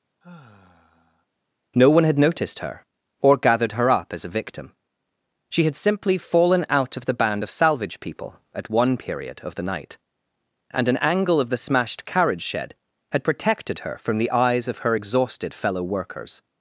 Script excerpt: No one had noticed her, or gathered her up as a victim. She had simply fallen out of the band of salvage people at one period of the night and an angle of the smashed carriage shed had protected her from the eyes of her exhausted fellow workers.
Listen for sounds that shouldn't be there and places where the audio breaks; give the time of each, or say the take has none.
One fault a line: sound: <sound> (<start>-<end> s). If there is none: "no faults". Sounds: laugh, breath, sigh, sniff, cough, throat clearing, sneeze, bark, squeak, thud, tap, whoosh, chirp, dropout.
sound: sigh (0.2-1.3 s)